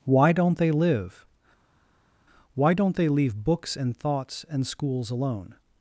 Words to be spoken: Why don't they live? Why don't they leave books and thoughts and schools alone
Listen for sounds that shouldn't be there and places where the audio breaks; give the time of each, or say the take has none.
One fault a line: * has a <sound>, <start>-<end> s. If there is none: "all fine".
all fine